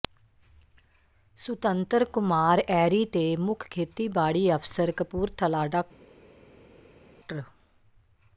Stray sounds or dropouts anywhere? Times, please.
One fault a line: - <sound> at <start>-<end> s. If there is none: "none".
none